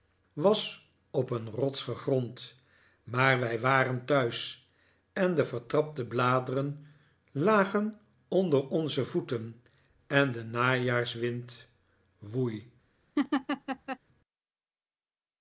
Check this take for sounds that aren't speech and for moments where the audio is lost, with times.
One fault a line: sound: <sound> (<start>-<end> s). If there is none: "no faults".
sound: laugh (13.2-14.0 s)